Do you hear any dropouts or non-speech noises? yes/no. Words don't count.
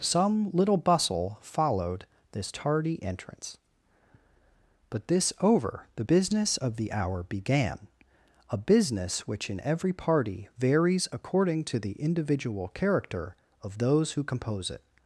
no